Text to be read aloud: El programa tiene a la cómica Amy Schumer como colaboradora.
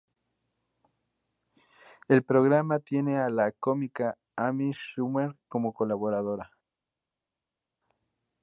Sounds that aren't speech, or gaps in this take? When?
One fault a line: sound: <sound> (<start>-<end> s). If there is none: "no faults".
no faults